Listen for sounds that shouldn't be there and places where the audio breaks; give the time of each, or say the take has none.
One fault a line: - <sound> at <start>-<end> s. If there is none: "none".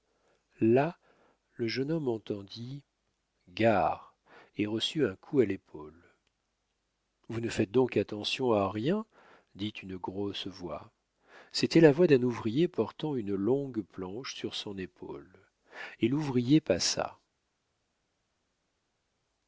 none